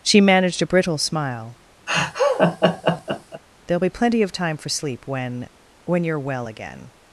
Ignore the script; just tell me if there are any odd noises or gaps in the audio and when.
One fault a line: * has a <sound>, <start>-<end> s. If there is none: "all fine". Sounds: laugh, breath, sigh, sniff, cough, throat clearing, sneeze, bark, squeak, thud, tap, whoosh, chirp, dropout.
* has a laugh, 1.9-3.4 s